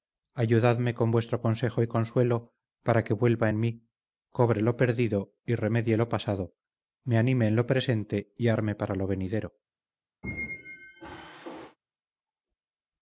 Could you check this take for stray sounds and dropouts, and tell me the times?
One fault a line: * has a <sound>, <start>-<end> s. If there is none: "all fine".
* has a squeak, 10.2-11.8 s